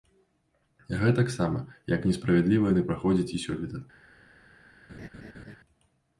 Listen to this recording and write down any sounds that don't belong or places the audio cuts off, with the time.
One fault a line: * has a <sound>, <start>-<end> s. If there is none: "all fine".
* has a laugh, 4.9-5.6 s